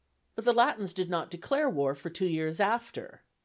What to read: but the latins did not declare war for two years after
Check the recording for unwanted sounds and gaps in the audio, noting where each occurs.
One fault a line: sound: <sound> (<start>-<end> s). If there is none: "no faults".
no faults